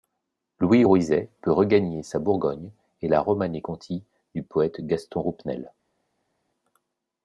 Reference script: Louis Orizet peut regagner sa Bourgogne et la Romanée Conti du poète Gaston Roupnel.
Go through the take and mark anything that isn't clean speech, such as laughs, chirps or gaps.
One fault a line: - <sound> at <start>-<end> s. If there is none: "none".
none